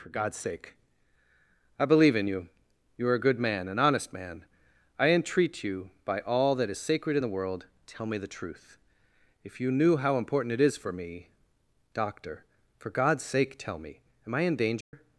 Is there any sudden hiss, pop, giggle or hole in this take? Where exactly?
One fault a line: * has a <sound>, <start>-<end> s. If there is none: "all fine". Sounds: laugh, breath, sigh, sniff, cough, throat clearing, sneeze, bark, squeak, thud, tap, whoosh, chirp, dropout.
* has a dropout, 14.8-14.9 s